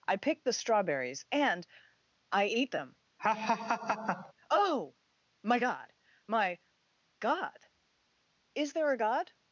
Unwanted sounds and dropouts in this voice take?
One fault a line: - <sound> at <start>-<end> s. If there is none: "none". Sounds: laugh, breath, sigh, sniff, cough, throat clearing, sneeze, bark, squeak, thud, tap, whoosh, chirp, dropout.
- laugh at 3.2-4.3 s